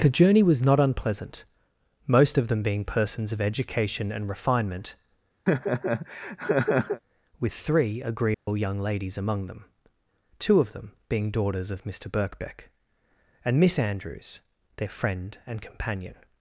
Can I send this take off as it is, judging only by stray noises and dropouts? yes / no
no